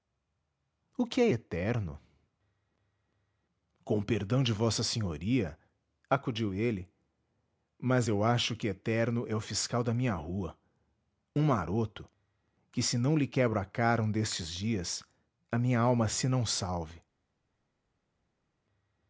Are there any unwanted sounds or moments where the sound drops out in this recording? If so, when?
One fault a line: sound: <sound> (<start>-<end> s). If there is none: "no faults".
no faults